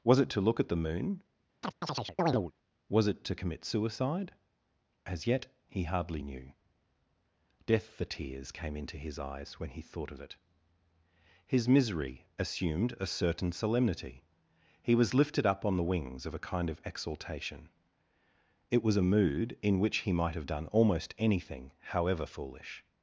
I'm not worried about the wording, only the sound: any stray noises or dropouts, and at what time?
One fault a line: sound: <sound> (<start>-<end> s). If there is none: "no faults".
sound: chirp (1.6-2.5 s)